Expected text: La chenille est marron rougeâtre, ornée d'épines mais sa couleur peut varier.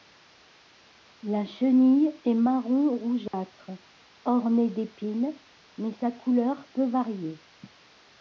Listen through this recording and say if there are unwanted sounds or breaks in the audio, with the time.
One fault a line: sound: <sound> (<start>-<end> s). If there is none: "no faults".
sound: dropout (3.3-3.3 s)